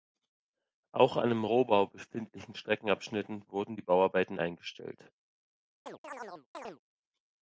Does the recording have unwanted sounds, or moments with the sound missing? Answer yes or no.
yes